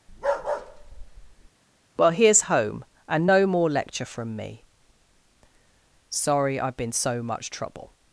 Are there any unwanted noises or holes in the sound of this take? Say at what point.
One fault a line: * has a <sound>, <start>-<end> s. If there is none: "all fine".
* has a bark, 0.1-1.5 s